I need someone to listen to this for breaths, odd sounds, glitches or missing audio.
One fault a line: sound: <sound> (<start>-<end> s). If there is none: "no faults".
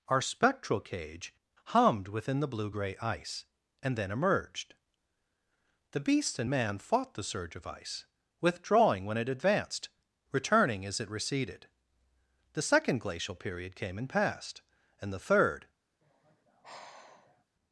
sound: sigh (16.0-17.4 s)